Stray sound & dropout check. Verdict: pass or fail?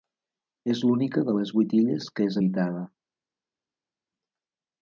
pass